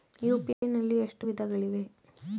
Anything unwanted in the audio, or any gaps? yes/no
yes